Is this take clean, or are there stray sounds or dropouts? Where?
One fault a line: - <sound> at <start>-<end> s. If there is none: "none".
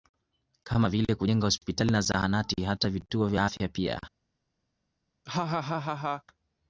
- laugh at 5.3-6.2 s